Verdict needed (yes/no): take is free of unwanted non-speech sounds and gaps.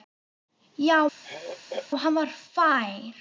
no